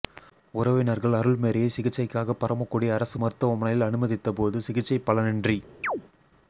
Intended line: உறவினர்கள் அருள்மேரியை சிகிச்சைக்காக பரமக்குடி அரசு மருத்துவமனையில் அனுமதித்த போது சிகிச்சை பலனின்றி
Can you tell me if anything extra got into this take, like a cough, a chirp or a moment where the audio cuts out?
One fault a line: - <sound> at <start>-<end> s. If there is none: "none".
- chirp at 5.8-6.0 s